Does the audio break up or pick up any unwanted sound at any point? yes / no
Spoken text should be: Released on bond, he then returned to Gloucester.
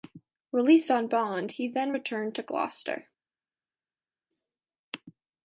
no